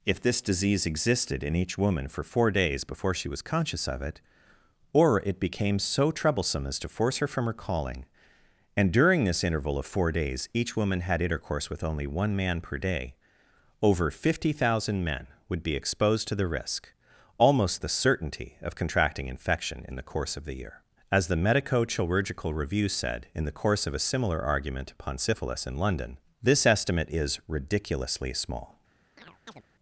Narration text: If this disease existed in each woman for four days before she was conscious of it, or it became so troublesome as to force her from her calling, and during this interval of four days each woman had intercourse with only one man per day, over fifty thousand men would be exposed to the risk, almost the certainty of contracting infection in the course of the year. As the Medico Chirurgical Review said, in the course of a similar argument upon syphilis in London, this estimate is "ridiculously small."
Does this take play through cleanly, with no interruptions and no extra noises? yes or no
no